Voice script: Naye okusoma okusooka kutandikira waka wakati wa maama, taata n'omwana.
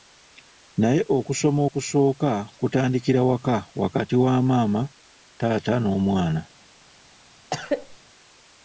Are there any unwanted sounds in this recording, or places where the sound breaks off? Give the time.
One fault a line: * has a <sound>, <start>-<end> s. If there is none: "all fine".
* has a cough, 7.5-8.0 s